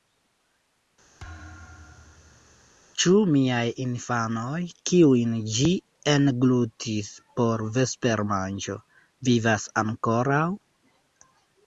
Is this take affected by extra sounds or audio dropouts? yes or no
yes